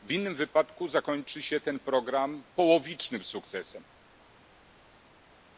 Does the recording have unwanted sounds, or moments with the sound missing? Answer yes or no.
no